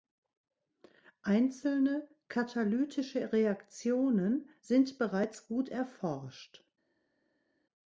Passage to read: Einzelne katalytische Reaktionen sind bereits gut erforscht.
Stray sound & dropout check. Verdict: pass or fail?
pass